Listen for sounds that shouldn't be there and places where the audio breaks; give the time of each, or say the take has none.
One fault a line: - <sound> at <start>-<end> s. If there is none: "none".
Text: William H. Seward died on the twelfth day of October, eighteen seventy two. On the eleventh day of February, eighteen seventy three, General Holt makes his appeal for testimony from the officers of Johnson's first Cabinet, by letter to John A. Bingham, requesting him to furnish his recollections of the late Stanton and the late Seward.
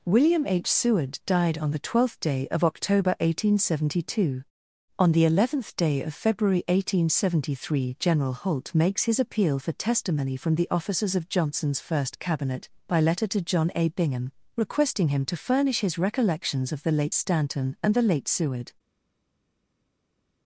none